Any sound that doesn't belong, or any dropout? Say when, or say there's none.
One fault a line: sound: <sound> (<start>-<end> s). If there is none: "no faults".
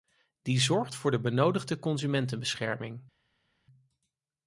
no faults